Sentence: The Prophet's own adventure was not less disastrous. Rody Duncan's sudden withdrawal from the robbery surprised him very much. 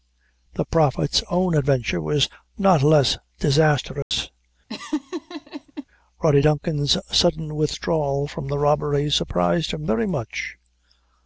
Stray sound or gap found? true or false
true